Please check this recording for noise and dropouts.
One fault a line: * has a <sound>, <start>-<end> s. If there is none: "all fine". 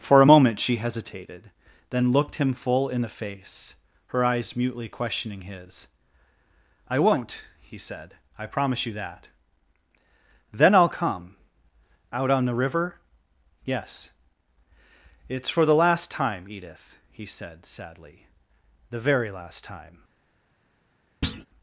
* has a thud, 21.2-21.5 s